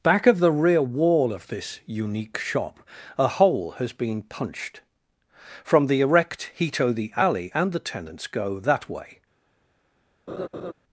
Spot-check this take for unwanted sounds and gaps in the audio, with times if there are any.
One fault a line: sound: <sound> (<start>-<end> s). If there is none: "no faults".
sound: laugh (10.3-10.7 s)